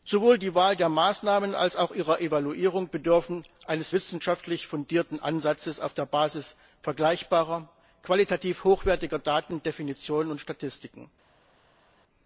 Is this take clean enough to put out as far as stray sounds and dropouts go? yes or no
yes